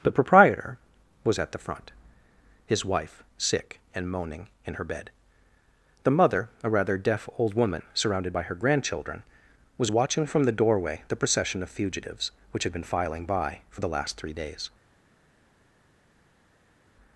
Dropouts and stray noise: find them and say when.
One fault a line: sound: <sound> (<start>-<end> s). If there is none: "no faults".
no faults